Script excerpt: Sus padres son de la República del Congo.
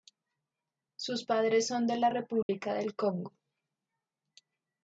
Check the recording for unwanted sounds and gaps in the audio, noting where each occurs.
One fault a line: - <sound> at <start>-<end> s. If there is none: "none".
- dropout at 2.4-2.5 s